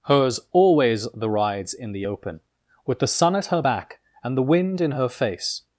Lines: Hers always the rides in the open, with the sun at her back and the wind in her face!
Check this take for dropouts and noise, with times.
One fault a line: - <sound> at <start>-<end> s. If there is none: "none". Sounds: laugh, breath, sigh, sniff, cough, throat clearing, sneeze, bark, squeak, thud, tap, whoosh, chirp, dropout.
none